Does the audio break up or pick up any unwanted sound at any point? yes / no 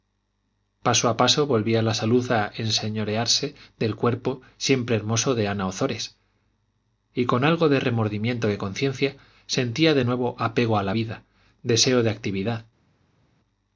no